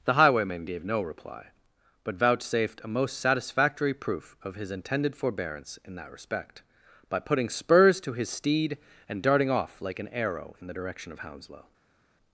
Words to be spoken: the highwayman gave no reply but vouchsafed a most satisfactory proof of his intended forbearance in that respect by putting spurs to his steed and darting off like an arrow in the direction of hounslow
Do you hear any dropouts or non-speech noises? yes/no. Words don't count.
no